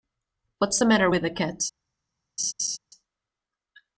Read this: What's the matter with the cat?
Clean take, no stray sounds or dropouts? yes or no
no